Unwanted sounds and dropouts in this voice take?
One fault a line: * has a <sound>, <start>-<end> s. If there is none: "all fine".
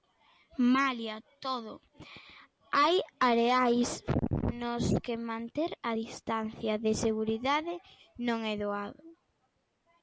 all fine